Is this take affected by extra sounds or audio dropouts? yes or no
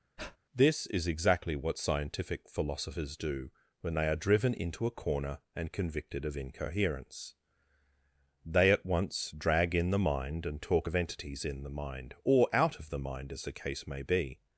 yes